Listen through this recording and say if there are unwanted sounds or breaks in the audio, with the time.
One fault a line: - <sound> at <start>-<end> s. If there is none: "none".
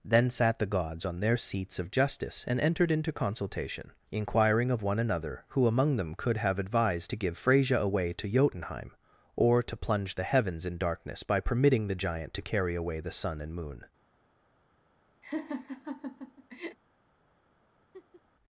- laugh at 15.2-16.8 s
- laugh at 17.9-18.2 s